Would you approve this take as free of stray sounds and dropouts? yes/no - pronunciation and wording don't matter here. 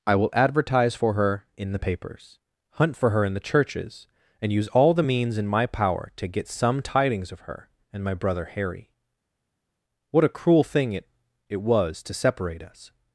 yes